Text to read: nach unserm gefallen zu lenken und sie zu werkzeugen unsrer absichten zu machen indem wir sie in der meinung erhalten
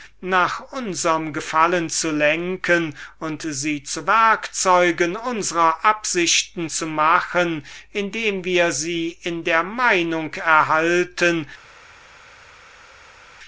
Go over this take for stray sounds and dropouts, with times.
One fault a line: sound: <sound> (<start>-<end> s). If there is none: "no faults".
no faults